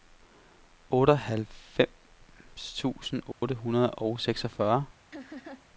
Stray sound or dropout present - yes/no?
yes